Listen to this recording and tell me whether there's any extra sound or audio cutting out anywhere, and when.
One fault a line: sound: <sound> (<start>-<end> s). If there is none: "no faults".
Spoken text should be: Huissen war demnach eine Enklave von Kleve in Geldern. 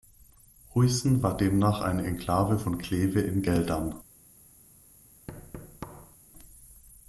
sound: thud (5.3-6.2 s)